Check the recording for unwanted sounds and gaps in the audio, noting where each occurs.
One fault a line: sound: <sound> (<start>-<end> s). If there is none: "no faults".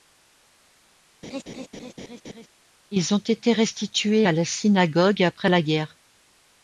sound: laugh (1.2-2.5 s)